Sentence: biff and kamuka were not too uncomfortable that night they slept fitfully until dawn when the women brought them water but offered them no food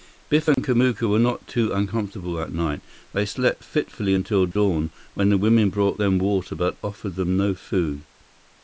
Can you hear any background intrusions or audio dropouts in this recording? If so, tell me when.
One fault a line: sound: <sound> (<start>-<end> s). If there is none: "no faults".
sound: dropout (0.5-0.6 s)
sound: dropout (4.5-4.6 s)